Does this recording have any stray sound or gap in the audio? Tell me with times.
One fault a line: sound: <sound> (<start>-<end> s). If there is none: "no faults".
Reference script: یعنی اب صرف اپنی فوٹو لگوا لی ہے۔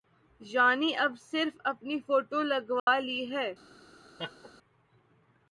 sound: dropout (2.8-2.9 s)
sound: laugh (4.2-4.5 s)